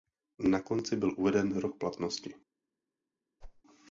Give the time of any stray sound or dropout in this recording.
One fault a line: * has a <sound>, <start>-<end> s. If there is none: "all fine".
* has a whoosh, 3.4-3.6 s